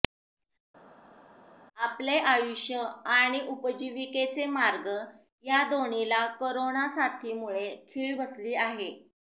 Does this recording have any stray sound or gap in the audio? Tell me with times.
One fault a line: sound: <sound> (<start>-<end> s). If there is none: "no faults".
no faults